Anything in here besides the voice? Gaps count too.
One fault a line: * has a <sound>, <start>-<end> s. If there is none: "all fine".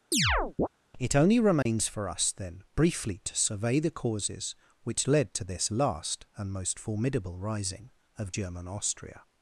* has a chirp, 0.1-0.7 s
* has a dropout, 1.6-1.7 s